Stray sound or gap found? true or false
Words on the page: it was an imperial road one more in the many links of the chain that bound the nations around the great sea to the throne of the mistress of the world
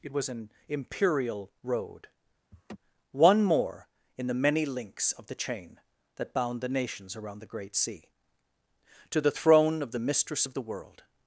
true